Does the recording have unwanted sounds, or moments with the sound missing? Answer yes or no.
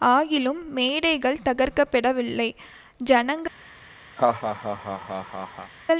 yes